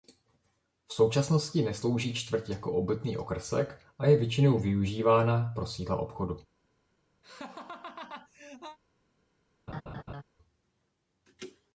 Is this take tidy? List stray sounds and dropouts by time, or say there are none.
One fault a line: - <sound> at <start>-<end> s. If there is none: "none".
- laugh at 7.2-8.8 s
- laugh at 9.7-10.2 s